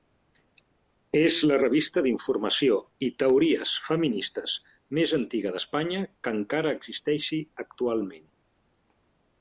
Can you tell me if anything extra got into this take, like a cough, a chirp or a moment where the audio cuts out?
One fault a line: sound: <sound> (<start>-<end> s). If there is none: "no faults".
no faults